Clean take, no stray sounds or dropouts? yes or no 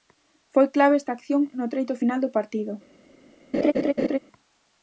no